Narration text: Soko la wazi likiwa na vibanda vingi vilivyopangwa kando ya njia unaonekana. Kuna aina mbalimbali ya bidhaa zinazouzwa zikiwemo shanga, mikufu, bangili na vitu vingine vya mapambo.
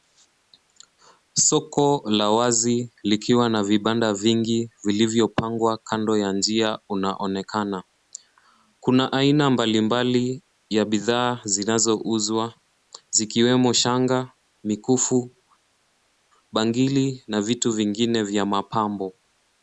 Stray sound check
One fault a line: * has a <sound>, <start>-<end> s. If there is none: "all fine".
all fine